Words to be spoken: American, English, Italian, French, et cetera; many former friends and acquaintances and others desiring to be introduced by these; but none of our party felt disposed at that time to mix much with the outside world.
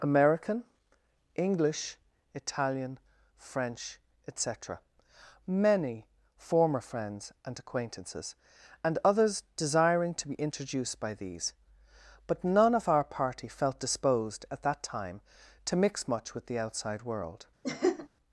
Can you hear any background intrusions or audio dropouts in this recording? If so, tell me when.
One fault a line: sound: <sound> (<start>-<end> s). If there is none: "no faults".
sound: laugh (17.6-18.1 s)